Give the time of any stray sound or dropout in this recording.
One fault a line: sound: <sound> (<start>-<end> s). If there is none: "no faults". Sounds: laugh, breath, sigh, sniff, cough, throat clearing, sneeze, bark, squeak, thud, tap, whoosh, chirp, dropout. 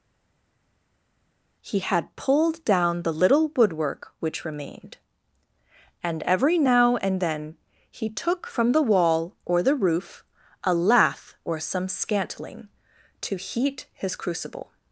no faults